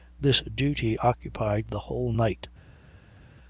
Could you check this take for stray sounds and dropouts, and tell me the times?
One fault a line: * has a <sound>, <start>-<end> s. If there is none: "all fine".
all fine